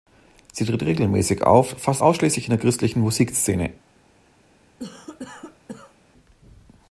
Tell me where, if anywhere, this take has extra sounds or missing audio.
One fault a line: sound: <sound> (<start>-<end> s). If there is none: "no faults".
sound: cough (4.8-6.0 s)